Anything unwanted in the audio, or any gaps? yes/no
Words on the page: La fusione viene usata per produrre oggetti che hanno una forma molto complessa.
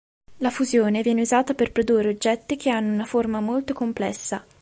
no